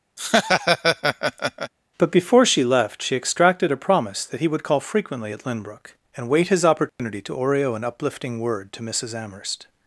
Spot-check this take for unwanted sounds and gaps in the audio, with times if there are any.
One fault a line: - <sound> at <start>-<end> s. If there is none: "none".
- laugh at 0.2-1.7 s
- dropout at 6.9-7.0 s